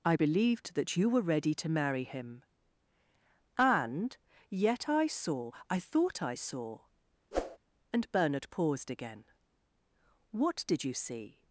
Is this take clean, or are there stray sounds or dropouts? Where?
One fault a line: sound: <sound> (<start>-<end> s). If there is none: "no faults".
sound: whoosh (7.3-7.6 s)